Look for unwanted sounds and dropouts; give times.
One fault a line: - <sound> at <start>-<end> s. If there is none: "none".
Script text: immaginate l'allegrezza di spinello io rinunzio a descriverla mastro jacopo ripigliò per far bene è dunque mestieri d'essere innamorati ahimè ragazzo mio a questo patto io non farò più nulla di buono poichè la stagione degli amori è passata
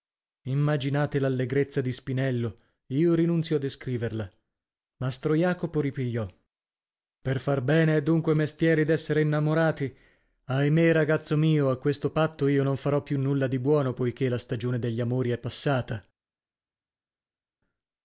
none